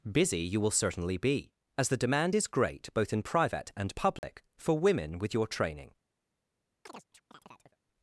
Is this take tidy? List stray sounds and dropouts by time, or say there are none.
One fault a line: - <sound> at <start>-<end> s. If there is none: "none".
- dropout at 4.2-4.2 s
- chirp at 6.9-7.8 s